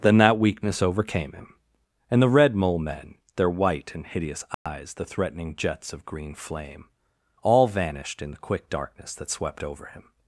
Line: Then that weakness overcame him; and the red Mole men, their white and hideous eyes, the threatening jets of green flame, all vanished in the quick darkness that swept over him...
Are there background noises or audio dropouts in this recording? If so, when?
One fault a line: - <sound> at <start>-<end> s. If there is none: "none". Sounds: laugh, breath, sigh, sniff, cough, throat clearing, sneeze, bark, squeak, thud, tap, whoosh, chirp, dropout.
- dropout at 4.5-4.7 s